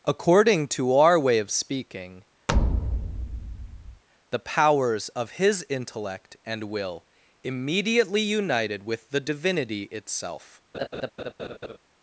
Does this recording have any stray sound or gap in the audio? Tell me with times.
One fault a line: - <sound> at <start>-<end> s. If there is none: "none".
- thud at 2.5-4.0 s
- laugh at 10.7-11.8 s